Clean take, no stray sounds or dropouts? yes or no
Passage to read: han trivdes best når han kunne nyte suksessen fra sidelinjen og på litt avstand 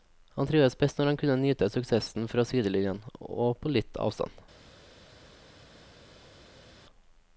yes